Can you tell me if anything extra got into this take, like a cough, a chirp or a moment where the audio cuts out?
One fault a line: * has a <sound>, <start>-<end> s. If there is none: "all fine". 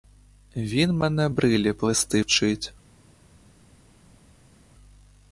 all fine